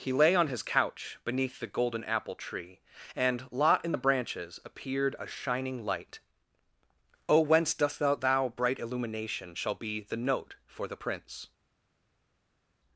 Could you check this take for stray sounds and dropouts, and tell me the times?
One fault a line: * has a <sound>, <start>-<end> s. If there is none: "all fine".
all fine